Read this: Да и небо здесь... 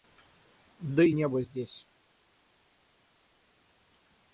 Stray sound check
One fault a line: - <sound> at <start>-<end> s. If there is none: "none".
none